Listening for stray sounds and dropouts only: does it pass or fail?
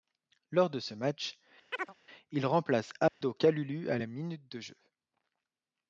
fail